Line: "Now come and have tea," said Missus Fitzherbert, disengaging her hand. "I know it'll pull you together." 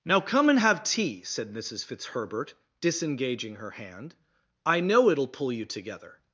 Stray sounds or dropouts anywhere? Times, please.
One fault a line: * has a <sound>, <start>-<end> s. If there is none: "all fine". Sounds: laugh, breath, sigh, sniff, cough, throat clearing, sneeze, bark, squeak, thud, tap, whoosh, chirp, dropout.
all fine